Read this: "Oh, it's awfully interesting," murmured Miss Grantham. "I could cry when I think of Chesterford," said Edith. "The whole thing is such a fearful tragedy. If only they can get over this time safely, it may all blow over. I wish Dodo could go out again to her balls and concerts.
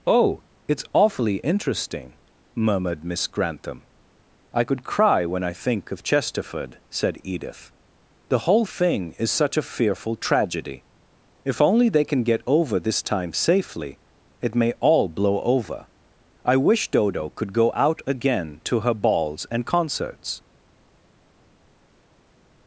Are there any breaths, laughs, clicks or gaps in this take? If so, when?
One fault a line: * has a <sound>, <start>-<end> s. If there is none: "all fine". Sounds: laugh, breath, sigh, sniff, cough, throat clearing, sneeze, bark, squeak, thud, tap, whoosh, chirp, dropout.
all fine